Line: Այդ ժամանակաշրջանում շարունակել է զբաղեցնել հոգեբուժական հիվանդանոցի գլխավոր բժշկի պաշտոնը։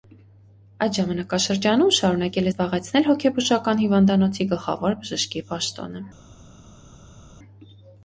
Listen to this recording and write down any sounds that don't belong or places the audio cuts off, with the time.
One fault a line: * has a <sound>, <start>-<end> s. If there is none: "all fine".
all fine